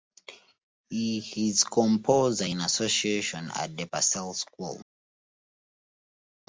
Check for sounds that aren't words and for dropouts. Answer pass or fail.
pass